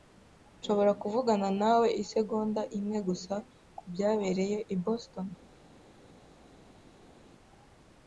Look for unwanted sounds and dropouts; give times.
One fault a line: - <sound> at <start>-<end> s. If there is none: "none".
none